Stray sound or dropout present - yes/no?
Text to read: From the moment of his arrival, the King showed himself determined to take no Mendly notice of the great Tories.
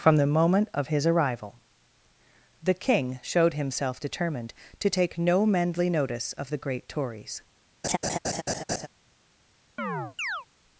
yes